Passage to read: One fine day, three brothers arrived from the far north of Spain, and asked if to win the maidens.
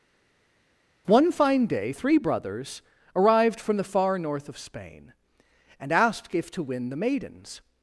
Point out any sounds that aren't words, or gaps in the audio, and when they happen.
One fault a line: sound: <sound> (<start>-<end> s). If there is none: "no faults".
no faults